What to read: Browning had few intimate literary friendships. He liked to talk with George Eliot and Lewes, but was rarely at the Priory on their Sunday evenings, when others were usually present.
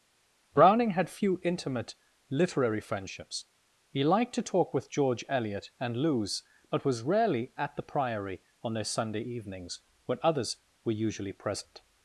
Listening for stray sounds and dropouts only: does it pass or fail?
pass